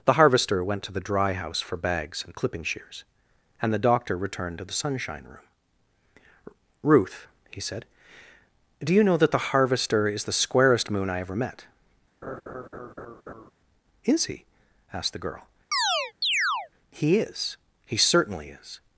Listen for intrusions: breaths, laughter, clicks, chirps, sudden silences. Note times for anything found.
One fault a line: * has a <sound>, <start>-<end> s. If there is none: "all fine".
* has a laugh, 12.2-13.5 s
* has a chirp, 15.7-16.7 s